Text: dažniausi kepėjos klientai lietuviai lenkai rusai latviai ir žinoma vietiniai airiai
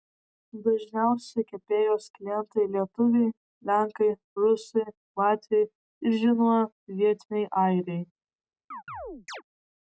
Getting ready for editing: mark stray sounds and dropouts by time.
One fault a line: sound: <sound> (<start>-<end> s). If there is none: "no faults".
sound: chirp (8.7-9.4 s)